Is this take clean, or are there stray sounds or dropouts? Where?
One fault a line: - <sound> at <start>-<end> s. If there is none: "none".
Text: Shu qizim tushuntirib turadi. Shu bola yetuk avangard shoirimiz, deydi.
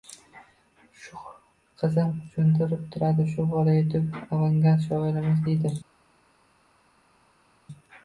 none